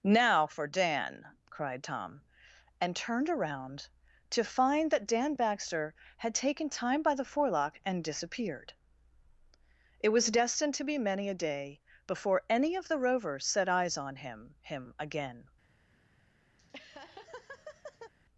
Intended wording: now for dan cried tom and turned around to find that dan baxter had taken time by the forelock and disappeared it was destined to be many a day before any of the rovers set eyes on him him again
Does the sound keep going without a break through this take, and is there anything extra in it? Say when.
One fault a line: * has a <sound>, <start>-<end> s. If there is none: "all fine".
* has a laugh, 16.6-18.1 s